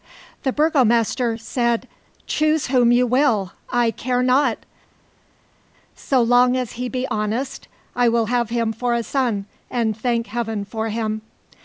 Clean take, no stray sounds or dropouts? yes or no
yes